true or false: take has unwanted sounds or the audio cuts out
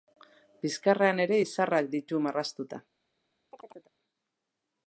true